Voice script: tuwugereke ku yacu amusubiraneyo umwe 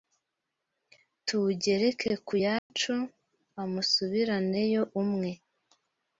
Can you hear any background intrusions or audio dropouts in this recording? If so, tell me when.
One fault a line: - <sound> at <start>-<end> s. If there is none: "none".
- dropout at 2.6-2.7 s